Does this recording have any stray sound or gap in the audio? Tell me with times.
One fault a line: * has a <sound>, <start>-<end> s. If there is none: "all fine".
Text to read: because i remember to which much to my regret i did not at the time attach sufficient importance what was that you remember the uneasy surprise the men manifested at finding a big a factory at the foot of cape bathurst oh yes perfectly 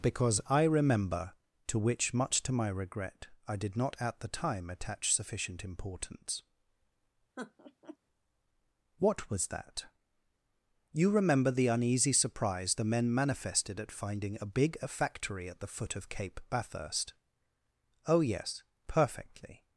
* has a laugh, 7.4-8.0 s